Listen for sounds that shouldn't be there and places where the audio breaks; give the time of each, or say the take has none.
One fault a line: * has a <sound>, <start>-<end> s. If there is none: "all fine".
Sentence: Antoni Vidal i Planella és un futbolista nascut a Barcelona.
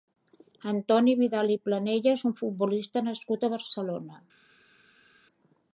all fine